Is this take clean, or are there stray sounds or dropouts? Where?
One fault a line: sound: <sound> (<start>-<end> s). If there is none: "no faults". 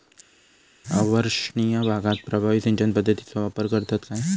no faults